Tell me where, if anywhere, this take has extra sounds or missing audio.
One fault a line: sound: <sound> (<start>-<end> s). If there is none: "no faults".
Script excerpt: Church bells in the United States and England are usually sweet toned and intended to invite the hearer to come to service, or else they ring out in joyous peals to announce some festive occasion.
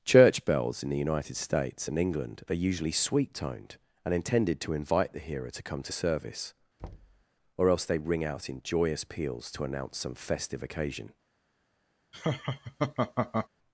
sound: thud (6.8-7.2 s)
sound: laugh (12.1-13.5 s)